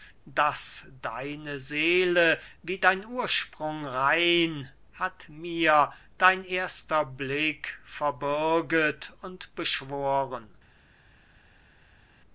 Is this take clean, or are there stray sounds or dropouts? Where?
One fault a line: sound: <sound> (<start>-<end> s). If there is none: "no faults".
no faults